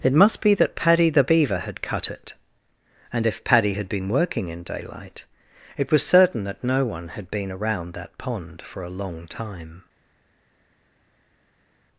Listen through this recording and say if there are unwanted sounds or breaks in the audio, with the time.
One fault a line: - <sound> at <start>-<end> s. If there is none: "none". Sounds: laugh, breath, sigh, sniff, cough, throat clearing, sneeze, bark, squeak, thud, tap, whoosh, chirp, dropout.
none